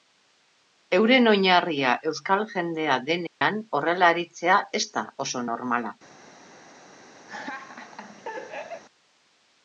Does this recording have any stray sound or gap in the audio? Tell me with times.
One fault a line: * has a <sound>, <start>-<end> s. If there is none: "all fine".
* has a dropout, 3.3-3.4 s
* has a laugh, 7.3-8.8 s